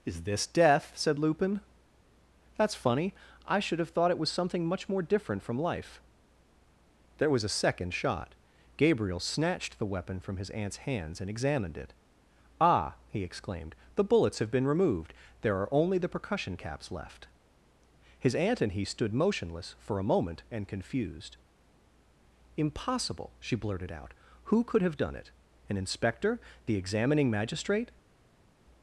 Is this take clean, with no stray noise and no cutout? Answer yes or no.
yes